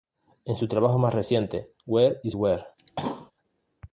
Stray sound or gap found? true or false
true